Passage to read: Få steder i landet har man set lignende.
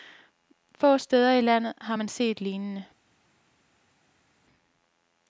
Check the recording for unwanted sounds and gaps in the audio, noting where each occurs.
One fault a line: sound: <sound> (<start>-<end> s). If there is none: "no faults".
no faults